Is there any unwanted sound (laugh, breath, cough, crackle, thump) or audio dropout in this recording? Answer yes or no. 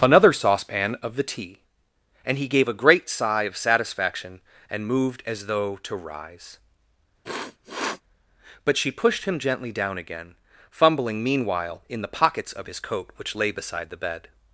yes